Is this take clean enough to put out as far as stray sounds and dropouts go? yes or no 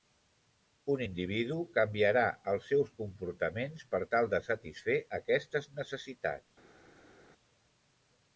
yes